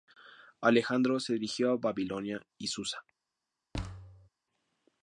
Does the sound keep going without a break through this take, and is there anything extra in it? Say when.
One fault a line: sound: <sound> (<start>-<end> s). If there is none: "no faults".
sound: thud (3.7-4.3 s)